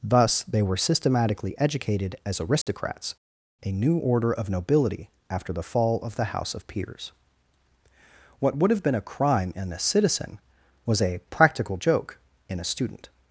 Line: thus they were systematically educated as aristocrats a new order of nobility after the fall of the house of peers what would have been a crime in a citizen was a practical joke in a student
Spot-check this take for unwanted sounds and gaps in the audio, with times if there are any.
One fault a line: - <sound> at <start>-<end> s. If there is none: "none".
- dropout at 2.6-2.7 s